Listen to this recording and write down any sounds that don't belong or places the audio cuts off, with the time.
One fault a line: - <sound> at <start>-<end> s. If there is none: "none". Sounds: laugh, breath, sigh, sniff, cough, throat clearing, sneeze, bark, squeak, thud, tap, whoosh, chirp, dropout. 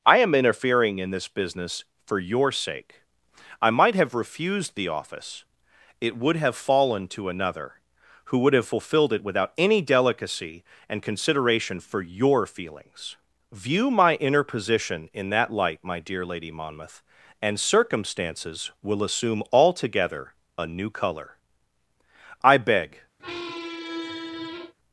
- squeak at 23.2-24.7 s